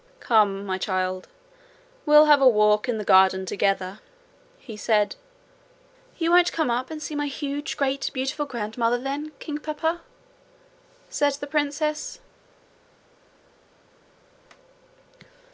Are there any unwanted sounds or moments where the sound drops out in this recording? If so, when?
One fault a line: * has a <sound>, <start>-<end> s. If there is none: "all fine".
all fine